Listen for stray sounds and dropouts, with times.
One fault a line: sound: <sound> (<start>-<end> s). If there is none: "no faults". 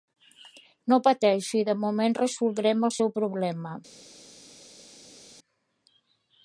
no faults